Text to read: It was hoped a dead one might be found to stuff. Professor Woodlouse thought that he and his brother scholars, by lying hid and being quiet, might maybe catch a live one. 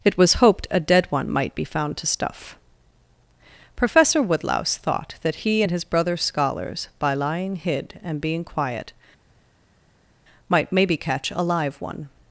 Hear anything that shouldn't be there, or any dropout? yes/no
no